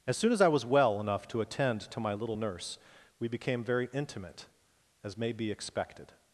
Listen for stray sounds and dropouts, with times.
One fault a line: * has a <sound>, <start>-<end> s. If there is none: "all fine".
all fine